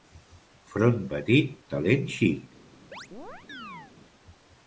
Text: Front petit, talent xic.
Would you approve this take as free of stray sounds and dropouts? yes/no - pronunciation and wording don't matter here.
no